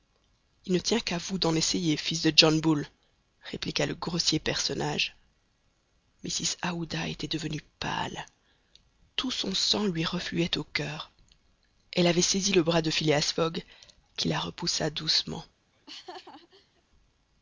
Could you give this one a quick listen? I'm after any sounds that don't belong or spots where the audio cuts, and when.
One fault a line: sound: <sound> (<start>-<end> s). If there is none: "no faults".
sound: laugh (15.7-16.8 s)